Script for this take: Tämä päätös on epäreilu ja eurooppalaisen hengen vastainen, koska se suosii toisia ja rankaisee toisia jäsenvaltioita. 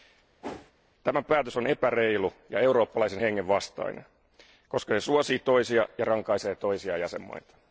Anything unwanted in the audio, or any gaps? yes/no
yes